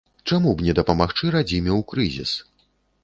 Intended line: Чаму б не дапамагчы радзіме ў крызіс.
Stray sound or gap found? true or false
false